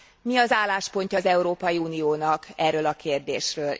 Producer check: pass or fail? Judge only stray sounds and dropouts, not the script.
pass